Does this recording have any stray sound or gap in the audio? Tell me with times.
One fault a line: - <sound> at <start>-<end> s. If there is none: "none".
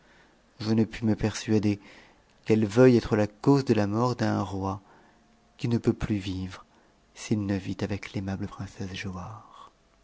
none